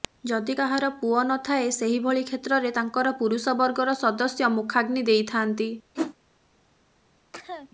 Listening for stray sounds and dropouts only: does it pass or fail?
fail